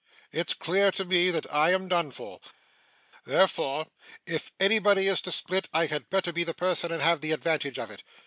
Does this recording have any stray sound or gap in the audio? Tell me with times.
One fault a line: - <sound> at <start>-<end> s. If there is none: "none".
none